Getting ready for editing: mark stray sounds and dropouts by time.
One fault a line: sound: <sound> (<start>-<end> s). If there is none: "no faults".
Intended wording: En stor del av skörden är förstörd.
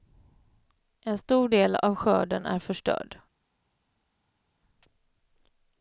no faults